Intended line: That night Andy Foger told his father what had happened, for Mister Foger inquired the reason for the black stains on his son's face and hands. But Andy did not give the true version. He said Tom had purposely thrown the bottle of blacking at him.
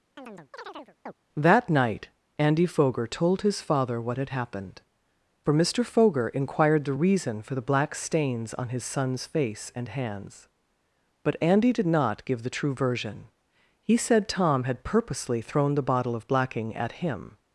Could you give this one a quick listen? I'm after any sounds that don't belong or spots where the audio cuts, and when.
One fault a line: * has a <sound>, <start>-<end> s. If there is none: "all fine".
* has a chirp, 0.2-1.1 s